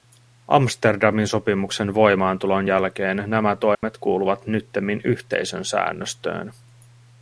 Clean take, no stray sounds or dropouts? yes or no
no